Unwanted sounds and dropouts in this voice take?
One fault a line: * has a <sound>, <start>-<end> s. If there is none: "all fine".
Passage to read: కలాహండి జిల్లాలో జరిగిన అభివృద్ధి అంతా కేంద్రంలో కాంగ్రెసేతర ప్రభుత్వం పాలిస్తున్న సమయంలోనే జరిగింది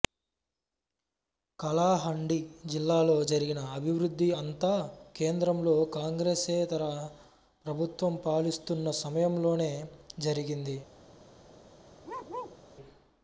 * has a bark, 12.0-12.6 s